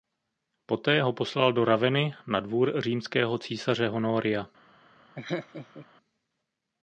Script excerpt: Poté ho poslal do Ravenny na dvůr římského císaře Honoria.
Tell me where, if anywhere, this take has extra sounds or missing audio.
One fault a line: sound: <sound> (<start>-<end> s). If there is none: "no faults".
sound: laugh (5.2-5.9 s)